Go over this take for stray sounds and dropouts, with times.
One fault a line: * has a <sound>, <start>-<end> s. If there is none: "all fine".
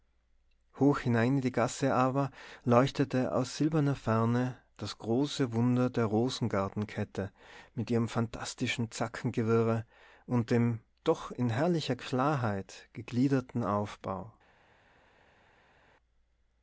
all fine